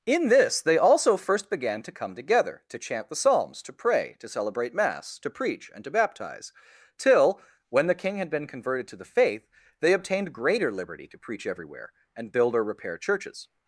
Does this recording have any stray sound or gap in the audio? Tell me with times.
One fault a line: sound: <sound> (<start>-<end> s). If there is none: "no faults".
no faults